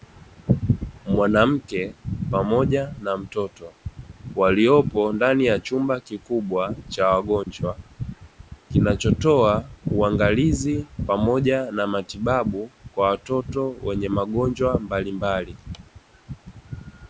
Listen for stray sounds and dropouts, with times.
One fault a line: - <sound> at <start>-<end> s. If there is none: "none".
- dropout at 7.4-7.5 s